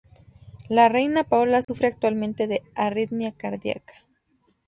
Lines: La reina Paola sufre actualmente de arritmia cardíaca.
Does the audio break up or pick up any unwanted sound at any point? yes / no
yes